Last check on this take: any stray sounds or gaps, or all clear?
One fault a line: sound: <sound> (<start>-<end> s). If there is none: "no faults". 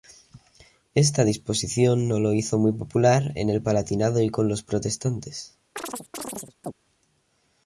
sound: chirp (5.8-6.7 s)